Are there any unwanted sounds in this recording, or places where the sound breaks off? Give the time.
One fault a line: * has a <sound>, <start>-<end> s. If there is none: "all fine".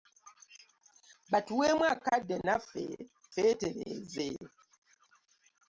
all fine